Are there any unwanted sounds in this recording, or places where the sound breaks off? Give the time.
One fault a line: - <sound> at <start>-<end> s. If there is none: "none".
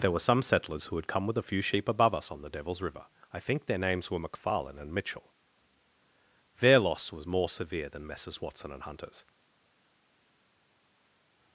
none